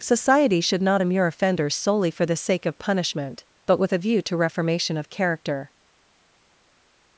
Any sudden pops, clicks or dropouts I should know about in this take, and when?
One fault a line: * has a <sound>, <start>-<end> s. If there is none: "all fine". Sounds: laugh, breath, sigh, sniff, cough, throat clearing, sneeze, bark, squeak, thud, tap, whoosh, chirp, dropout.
all fine